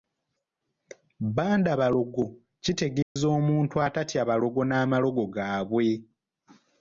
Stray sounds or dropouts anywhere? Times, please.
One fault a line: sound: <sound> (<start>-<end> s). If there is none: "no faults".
sound: dropout (3.0-3.2 s)